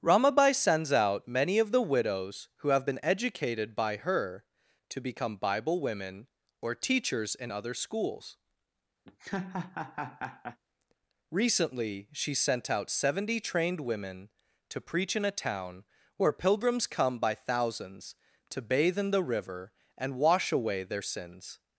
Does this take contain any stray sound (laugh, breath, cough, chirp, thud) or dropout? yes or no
yes